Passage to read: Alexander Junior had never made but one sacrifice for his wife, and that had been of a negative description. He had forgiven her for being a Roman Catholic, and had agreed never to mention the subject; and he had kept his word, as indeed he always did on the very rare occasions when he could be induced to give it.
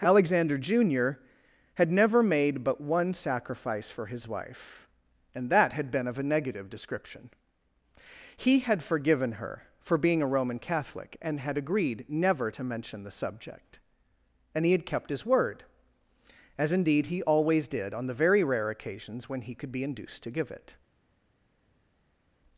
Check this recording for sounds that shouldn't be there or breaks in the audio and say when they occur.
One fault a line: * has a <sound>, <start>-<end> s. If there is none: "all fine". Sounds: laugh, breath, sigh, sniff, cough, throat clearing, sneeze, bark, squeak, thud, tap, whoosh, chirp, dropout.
all fine